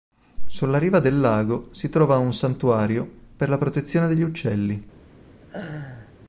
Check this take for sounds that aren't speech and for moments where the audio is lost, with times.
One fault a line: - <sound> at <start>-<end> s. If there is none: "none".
- laugh at 5.4-6.1 s